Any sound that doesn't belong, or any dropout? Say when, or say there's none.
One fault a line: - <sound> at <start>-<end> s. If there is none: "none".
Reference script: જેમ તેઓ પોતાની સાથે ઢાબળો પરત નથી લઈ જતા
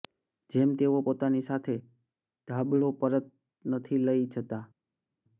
none